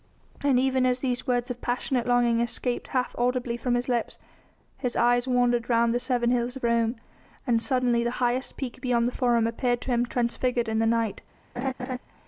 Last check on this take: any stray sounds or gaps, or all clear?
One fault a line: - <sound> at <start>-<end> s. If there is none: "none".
- laugh at 11.6-12.0 s